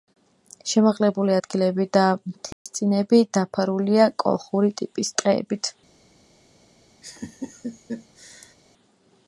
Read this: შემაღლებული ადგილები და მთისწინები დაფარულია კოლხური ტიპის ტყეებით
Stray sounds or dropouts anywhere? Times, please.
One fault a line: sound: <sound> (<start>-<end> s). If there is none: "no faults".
sound: dropout (2.5-2.7 s)
sound: laugh (7.0-8.5 s)